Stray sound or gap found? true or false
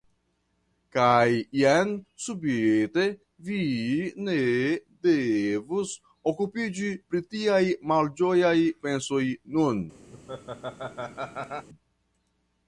true